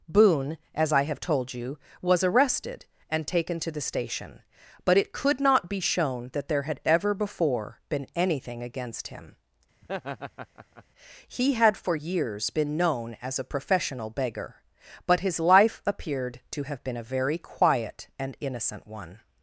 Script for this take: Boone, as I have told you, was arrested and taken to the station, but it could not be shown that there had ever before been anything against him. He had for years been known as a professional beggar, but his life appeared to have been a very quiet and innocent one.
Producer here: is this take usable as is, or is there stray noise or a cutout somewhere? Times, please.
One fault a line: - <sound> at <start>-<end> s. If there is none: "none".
- laugh at 9.8-10.8 s